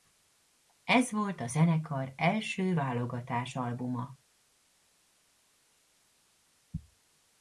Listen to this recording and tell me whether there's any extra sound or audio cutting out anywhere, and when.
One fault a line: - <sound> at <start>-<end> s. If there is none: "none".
none